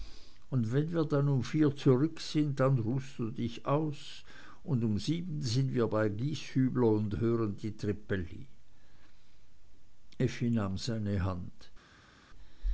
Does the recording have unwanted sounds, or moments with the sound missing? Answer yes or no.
no